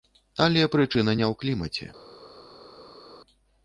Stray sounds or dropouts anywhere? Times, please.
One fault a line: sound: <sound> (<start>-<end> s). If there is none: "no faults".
no faults